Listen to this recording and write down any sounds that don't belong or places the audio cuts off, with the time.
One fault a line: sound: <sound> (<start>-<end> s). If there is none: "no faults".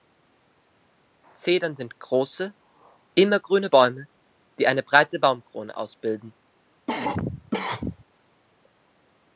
sound: cough (6.9-8.0 s)